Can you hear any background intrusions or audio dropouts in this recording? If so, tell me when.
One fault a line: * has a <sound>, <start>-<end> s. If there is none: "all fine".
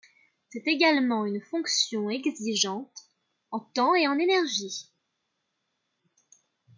all fine